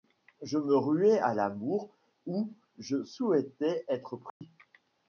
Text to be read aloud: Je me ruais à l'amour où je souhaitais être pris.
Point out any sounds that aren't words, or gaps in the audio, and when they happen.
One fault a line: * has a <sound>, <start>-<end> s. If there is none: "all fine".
* has a dropout, 4.3-4.4 s